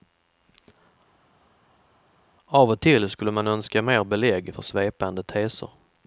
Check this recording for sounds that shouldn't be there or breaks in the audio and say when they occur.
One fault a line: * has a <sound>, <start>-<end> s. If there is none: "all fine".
all fine